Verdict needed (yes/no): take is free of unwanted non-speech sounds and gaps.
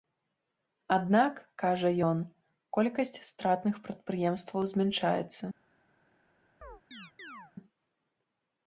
no